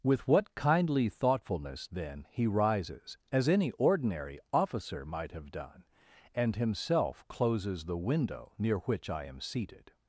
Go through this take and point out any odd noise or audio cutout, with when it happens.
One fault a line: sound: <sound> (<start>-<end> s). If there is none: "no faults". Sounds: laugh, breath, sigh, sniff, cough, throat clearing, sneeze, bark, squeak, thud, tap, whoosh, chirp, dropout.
no faults